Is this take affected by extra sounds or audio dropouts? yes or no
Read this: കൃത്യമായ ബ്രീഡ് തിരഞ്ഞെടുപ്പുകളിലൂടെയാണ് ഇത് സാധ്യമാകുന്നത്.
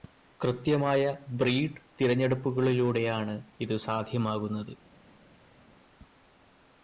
no